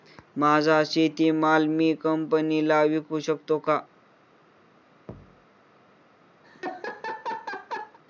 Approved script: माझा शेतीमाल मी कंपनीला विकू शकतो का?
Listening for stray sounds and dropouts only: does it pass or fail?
fail